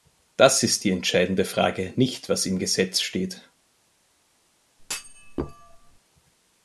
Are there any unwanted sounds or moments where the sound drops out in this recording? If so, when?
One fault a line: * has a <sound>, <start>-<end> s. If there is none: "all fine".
* has a thud, 4.8-6.0 s